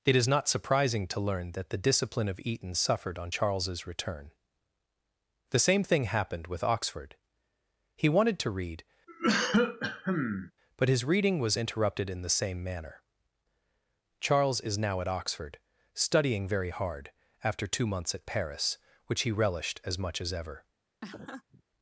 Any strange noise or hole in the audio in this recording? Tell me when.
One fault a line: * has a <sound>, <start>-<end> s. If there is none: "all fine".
* has a cough, 9.1-10.5 s
* has a laugh, 21.0-21.6 s